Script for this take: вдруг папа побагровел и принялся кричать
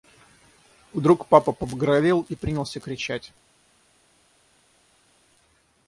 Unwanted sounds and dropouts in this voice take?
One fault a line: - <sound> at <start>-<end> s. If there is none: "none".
none